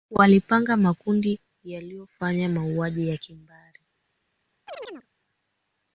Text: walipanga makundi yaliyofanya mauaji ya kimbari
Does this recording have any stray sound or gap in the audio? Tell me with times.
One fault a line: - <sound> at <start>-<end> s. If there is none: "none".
- chirp at 4.7-5.1 s